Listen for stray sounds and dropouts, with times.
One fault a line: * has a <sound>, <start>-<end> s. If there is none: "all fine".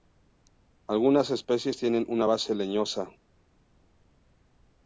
all fine